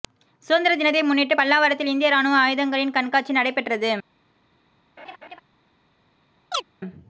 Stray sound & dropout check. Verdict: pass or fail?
fail